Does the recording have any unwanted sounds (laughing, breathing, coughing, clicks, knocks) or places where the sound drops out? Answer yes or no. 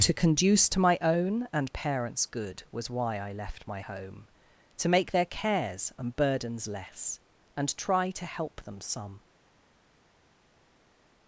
no